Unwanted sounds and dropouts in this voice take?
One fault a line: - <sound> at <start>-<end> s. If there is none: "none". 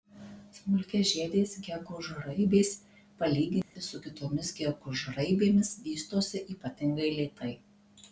- dropout at 3.6-3.8 s